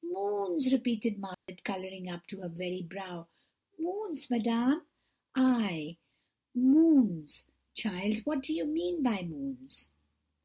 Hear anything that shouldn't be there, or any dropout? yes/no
yes